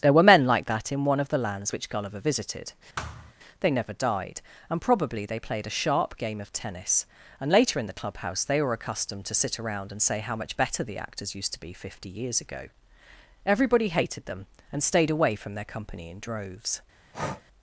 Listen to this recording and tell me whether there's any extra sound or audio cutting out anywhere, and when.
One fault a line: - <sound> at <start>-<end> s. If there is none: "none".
- thud at 3.0-3.3 s
- breath at 17.1-17.4 s